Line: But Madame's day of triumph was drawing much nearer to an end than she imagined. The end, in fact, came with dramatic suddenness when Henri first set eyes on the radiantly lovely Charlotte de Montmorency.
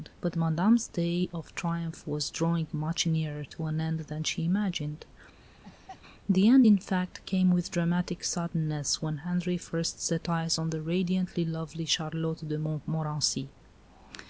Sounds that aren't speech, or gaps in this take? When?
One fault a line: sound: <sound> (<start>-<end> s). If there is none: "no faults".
sound: laugh (5.4-6.0 s)